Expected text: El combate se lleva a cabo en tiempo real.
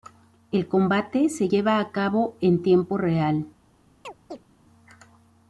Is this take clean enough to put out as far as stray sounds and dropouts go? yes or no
no